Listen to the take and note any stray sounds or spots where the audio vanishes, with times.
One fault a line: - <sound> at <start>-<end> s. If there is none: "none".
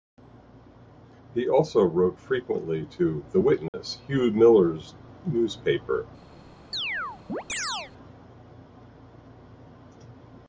- dropout at 3.7-3.7 s
- chirp at 6.7-7.9 s